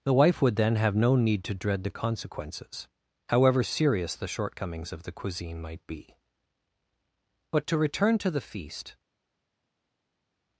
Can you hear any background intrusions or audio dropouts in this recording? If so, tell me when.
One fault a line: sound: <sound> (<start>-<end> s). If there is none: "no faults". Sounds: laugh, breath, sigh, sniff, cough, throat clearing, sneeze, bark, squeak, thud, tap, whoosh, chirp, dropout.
no faults